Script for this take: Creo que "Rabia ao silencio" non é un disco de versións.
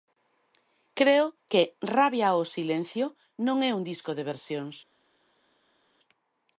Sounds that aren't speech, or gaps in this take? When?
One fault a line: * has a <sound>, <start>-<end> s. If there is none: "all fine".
all fine